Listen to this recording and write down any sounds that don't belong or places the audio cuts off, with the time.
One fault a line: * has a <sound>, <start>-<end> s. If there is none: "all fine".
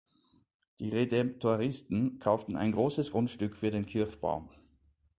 all fine